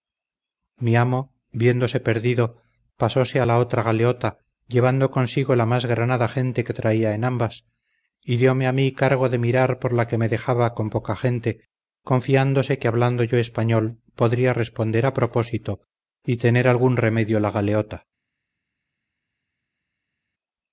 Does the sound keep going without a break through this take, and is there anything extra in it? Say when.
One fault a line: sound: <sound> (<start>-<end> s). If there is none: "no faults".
no faults